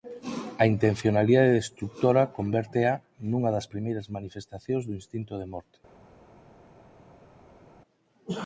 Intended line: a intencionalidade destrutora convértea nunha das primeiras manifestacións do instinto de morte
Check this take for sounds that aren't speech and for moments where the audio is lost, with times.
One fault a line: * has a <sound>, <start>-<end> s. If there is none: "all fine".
all fine